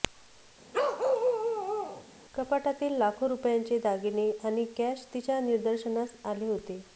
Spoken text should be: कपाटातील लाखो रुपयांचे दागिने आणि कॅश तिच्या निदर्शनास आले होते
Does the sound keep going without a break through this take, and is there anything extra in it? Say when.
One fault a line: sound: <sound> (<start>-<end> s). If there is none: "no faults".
sound: bark (0.7-2.0 s)